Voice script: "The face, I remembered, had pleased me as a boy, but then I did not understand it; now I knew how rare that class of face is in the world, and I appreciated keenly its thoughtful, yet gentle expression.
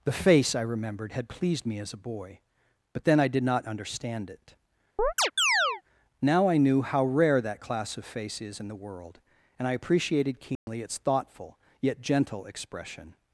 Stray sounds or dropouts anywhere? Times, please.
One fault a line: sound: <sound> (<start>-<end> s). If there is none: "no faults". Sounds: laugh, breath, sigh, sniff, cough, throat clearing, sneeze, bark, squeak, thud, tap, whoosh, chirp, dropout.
sound: chirp (5.0-5.8 s)
sound: dropout (10.6-10.7 s)